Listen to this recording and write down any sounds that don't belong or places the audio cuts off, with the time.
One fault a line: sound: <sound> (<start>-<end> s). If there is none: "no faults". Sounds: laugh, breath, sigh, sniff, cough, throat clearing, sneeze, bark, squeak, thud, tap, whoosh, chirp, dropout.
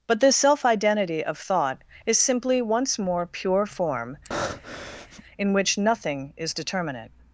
sound: breath (4.3-5.2 s)